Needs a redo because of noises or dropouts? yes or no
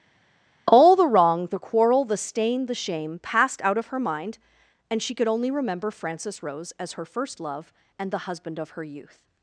no